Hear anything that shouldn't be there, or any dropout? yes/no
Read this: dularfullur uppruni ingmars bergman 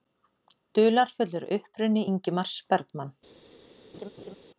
yes